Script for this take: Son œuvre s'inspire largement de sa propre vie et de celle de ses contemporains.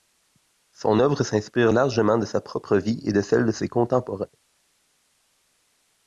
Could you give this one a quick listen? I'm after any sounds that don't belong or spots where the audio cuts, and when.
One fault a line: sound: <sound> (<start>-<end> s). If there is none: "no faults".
no faults